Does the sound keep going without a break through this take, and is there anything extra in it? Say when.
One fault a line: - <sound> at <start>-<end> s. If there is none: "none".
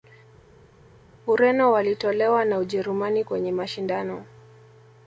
none